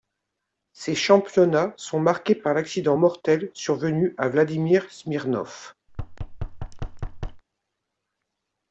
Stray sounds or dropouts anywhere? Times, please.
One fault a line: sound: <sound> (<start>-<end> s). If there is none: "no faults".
sound: thud (5.9-7.4 s)